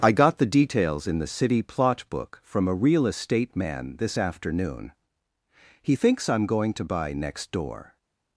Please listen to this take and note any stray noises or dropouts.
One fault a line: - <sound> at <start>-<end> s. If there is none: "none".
none